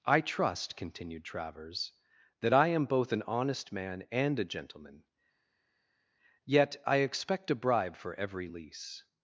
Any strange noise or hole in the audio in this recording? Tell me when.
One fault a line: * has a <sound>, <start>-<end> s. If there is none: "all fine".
all fine